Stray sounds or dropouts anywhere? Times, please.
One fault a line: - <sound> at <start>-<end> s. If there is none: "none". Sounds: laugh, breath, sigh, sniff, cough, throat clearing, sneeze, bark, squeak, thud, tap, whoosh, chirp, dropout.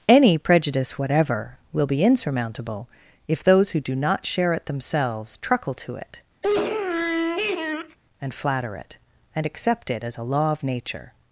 - sniff at 6.4-8.0 s